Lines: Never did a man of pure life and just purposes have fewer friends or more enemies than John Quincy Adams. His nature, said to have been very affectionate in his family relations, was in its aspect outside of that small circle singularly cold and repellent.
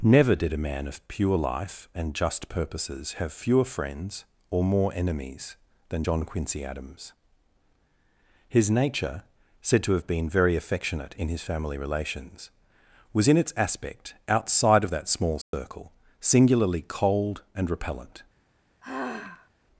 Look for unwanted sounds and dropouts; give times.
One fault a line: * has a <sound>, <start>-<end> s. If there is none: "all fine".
* has a dropout, 15.4-15.5 s
* has a sigh, 18.8-19.5 s